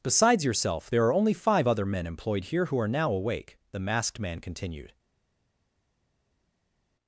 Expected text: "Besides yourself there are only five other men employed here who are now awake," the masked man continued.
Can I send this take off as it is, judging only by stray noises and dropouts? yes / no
yes